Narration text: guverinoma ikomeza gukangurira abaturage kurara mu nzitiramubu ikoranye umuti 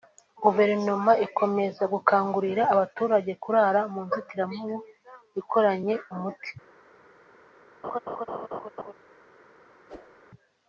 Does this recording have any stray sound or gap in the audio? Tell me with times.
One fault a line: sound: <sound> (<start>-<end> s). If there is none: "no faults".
sound: laugh (7.8-8.9 s)
sound: whoosh (9.9-10.2 s)